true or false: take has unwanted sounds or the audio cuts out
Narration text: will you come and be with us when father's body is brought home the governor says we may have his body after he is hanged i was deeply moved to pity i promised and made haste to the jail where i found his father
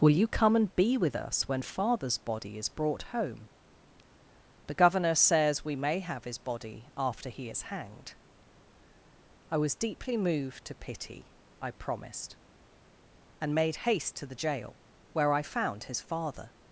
false